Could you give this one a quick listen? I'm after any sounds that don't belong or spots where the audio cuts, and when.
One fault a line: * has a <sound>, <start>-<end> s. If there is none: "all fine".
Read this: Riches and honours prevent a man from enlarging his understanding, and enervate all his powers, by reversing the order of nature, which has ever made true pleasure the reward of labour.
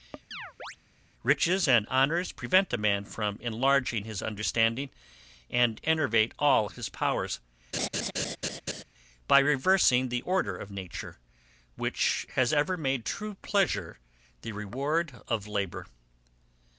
* has a chirp, 0.3-0.8 s
* has a laugh, 7.7-8.8 s